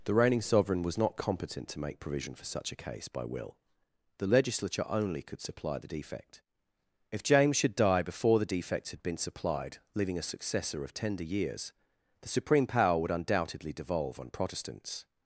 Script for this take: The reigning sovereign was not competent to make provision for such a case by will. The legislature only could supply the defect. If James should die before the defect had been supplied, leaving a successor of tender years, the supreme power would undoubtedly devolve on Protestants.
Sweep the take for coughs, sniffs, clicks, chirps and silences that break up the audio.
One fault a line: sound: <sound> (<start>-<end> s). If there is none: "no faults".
no faults